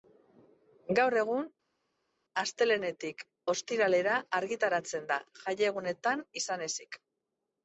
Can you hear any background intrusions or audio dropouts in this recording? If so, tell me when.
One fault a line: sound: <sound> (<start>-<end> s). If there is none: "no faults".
no faults